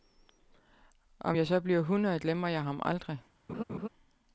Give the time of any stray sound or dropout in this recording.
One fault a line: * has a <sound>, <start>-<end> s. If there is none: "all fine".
* has a laugh, 3.5-3.9 s